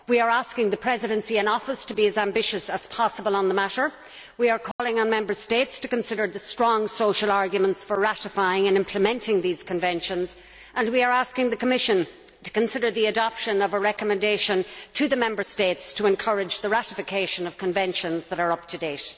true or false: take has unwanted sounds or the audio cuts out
true